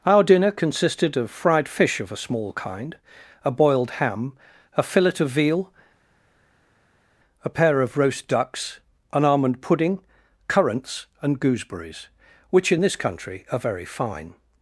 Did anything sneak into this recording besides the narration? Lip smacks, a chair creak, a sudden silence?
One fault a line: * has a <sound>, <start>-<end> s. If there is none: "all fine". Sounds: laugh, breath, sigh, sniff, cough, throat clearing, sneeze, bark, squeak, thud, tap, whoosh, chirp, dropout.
all fine